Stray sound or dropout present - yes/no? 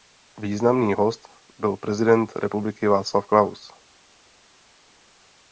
no